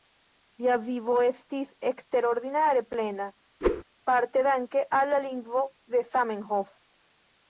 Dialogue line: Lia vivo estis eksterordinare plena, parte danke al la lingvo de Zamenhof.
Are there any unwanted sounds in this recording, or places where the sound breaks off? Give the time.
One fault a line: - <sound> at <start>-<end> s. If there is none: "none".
- whoosh at 3.6-3.8 s